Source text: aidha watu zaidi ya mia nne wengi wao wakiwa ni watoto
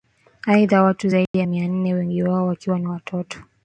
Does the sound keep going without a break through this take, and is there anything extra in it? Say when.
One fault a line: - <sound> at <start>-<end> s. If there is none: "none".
- dropout at 1.3-1.3 s